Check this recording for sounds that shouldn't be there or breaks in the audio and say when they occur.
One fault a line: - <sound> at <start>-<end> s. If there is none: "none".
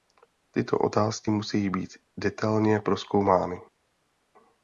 none